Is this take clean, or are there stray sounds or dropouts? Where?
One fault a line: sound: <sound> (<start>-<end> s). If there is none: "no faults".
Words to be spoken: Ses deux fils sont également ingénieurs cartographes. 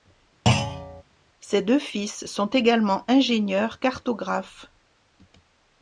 sound: thud (0.5-1.0 s)